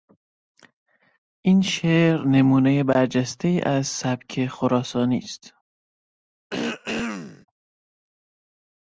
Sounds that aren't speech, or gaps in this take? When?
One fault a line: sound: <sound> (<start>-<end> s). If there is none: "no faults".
sound: throat clearing (6.5-7.5 s)